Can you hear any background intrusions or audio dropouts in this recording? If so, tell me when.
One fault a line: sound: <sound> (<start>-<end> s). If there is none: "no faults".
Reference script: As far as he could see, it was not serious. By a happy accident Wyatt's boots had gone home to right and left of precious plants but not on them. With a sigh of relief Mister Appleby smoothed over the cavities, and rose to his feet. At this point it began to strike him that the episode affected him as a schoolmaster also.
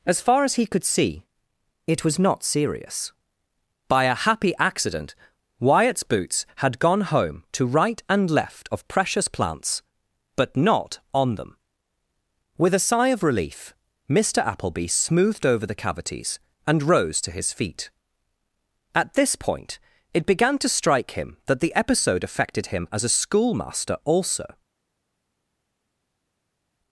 no faults